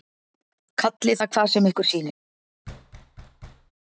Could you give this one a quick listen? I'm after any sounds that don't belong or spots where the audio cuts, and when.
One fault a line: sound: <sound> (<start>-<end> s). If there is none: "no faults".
sound: thud (2.6-3.7 s)